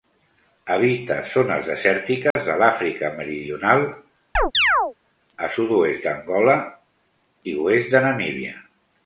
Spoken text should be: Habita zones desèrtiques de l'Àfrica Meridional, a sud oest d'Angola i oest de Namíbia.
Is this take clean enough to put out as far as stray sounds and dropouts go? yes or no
no